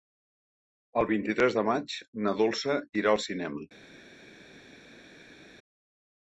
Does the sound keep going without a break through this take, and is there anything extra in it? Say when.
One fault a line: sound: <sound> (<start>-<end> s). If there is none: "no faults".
no faults